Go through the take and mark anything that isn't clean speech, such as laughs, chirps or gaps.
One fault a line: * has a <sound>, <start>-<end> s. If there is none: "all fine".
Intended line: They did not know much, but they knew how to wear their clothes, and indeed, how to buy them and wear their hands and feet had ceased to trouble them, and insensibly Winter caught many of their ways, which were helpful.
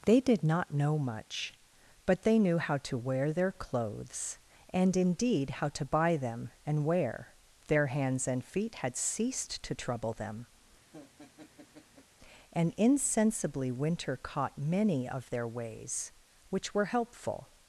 * has a laugh, 10.9-12.1 s